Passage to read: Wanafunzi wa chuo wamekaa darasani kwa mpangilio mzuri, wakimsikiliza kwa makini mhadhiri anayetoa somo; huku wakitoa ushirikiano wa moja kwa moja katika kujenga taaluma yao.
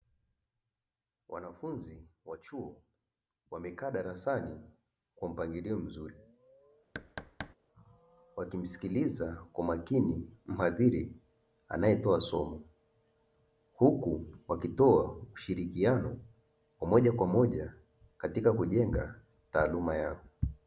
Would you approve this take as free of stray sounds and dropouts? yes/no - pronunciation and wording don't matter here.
no